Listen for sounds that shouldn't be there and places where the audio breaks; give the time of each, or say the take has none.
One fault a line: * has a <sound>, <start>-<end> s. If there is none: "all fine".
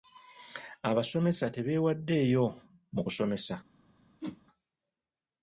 * has a whoosh, 4.2-4.4 s